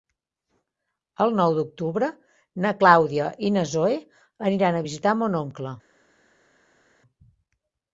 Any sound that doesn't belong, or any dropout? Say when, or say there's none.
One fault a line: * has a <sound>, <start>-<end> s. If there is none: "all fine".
all fine